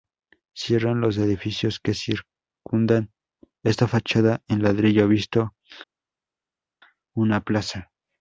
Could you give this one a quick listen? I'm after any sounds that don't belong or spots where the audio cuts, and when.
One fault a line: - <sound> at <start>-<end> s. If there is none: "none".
none